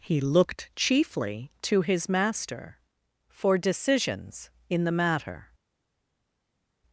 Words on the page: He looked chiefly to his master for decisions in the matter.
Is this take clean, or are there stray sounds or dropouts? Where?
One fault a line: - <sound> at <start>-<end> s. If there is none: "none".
none